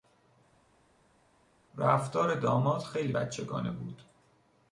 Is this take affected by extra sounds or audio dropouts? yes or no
no